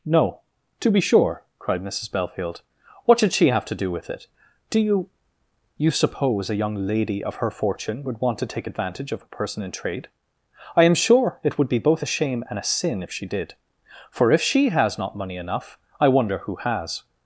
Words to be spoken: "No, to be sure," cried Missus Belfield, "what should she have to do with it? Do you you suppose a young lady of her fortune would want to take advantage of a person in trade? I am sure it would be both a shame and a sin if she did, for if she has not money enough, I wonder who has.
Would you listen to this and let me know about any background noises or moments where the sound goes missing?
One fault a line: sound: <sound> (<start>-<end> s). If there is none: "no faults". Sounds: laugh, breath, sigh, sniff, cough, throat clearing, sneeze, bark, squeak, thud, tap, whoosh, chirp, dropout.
no faults